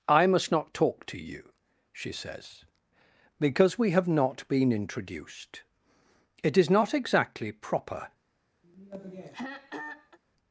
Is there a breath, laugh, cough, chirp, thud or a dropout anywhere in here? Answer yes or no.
yes